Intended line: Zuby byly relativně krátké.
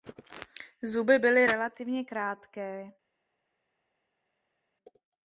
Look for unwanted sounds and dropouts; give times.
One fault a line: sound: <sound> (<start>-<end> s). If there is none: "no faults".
no faults